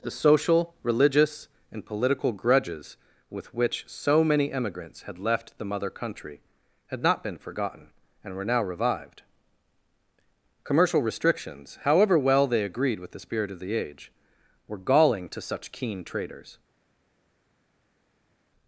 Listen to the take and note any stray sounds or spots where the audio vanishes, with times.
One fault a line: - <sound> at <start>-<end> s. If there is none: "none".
none